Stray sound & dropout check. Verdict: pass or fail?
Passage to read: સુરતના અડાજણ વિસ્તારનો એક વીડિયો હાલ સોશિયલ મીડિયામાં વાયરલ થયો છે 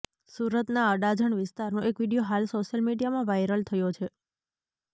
pass